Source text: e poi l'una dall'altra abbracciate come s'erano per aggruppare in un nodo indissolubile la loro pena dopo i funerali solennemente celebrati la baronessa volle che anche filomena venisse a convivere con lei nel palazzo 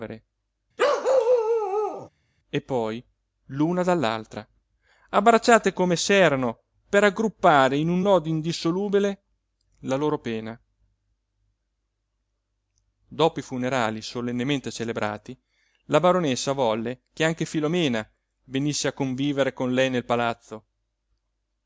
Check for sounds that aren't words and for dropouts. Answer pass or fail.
fail